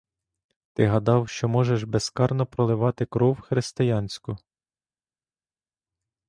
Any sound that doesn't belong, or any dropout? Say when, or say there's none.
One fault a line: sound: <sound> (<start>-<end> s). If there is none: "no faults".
no faults